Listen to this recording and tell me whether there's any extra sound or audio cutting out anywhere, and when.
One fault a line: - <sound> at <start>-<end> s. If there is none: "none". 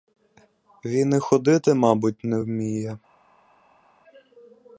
none